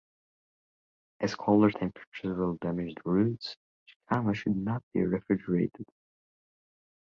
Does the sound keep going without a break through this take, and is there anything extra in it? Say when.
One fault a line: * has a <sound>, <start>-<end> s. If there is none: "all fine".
all fine